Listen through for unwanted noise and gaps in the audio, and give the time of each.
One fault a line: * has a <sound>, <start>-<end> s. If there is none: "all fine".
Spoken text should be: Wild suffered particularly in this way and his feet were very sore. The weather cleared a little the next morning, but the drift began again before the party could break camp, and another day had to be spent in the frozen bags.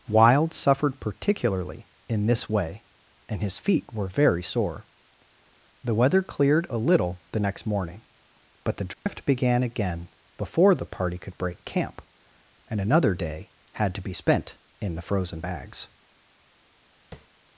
* has a dropout, 8.9-9.1 s
* has a tap, 17.1-17.3 s